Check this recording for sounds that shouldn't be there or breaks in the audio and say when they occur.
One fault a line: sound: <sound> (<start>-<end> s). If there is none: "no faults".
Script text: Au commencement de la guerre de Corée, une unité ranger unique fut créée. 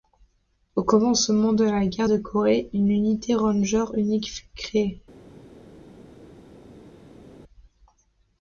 no faults